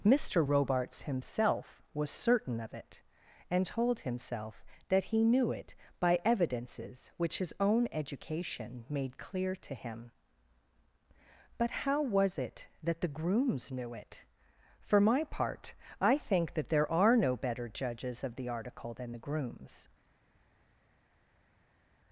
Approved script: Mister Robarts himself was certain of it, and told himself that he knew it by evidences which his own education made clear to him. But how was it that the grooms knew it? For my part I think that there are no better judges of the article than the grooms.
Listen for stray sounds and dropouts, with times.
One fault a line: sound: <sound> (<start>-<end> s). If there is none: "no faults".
no faults